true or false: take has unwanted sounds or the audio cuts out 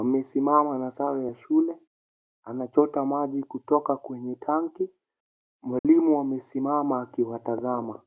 true